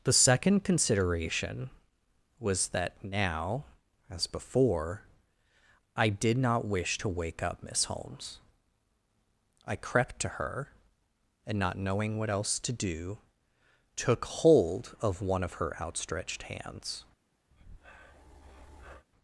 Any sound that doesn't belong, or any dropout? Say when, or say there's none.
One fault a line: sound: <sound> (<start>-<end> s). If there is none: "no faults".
sound: breath (17.5-19.1 s)